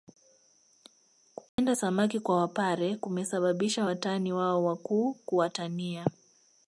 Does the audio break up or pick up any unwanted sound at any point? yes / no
yes